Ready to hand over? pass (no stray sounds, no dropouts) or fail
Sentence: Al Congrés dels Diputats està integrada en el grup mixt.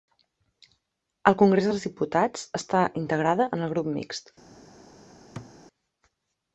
fail